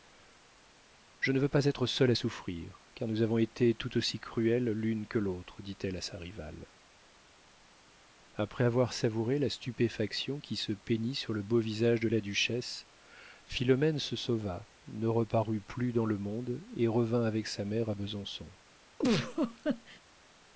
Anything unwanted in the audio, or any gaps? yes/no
yes